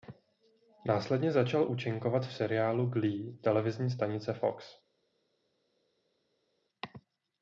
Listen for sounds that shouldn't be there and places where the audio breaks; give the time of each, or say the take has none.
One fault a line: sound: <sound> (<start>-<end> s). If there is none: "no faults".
no faults